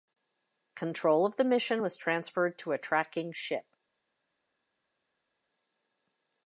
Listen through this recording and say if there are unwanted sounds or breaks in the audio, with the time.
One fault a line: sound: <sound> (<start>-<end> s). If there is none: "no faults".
no faults